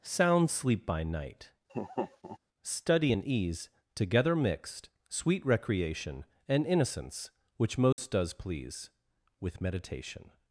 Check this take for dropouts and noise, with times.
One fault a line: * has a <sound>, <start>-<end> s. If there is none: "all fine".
* has a laugh, 1.7-2.4 s
* has a dropout, 7.9-8.0 s